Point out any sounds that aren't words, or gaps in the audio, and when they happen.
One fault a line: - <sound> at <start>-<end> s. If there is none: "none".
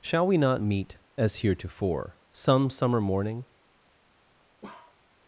- bark at 4.6-5.0 s